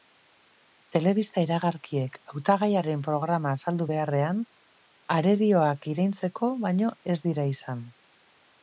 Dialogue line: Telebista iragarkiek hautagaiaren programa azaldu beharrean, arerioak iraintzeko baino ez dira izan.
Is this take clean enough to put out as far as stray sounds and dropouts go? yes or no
yes